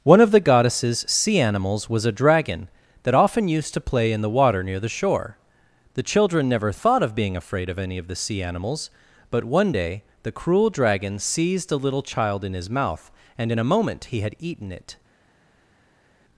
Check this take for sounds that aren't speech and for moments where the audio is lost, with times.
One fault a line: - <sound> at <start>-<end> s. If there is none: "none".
none